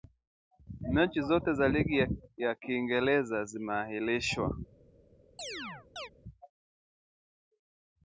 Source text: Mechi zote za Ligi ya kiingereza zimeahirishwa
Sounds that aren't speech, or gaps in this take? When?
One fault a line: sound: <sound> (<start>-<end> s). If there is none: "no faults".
sound: chirp (5.4-6.1 s)